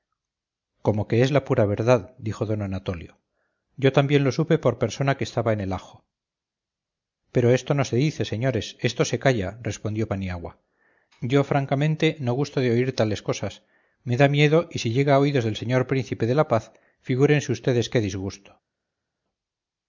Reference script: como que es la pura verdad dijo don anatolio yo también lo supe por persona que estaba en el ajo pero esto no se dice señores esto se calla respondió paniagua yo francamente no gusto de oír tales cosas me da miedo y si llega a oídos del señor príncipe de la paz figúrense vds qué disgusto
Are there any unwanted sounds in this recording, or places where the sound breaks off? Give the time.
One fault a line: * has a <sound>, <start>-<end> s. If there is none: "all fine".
all fine